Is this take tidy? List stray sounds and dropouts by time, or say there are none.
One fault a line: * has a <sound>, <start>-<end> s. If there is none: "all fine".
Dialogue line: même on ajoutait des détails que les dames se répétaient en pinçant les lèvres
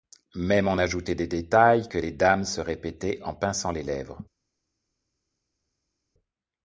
all fine